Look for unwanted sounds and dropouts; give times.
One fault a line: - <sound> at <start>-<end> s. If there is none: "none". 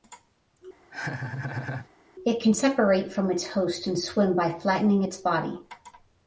- laugh at 0.9-1.9 s